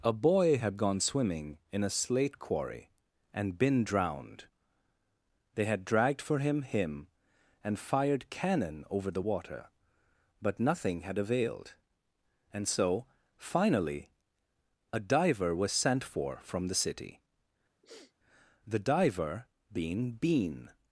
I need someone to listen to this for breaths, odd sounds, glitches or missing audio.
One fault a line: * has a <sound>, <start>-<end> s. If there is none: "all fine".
* has a sniff, 17.8-18.1 s